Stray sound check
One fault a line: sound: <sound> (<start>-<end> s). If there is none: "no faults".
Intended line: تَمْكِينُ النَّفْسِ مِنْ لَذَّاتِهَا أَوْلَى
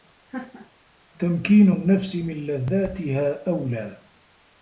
sound: laugh (0.3-0.7 s)